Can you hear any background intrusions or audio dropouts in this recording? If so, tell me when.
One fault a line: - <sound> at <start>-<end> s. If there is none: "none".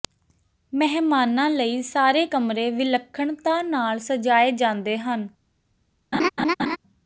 - laugh at 6.1-6.8 s